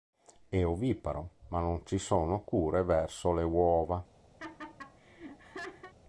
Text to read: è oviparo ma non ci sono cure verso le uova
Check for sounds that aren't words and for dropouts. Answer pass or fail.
fail